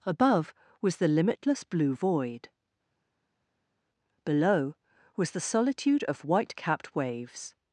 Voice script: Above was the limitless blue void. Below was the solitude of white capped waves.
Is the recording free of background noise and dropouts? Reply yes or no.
yes